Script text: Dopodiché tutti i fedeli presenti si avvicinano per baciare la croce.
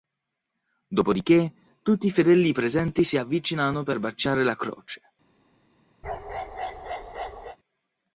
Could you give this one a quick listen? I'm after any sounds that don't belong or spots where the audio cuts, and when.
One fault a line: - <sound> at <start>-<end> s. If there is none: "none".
- bark at 6.0-7.6 s